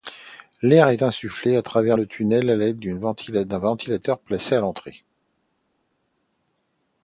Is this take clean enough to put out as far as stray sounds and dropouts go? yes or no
yes